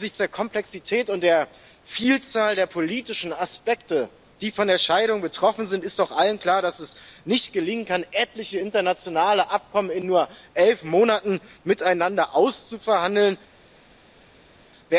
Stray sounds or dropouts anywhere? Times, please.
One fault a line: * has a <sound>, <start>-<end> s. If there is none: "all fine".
all fine